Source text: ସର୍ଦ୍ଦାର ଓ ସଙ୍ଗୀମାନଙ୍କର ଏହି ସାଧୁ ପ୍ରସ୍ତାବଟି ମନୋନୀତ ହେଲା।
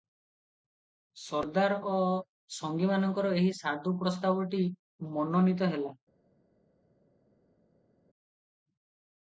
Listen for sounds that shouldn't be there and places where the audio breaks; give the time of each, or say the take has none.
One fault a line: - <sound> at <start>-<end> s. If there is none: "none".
none